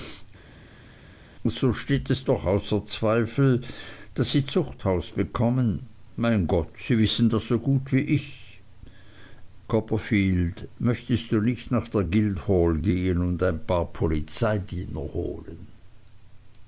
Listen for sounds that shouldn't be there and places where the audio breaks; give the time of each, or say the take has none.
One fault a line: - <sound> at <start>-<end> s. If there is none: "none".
none